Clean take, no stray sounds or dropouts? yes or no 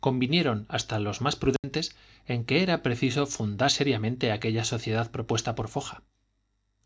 no